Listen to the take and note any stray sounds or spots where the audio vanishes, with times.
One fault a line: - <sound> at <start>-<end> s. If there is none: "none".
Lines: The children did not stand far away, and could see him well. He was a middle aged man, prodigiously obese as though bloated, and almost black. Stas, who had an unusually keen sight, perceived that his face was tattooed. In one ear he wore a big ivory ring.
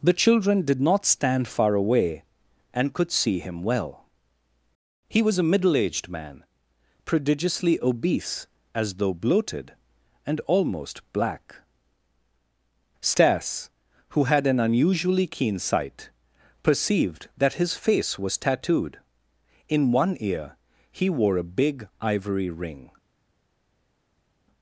none